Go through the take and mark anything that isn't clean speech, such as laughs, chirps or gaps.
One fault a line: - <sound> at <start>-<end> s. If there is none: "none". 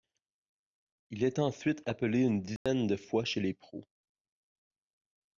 - dropout at 2.6-2.7 s